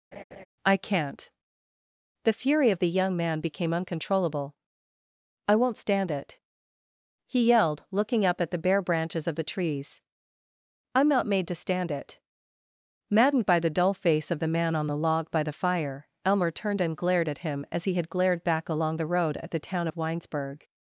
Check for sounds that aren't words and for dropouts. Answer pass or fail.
fail